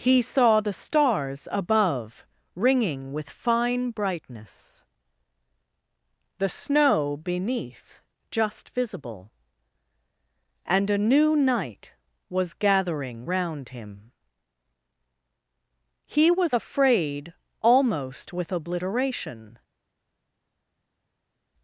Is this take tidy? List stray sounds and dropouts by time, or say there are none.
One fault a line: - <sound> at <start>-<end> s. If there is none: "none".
none